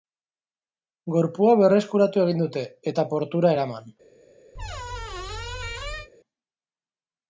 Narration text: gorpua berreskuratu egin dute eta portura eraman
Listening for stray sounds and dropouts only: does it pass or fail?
fail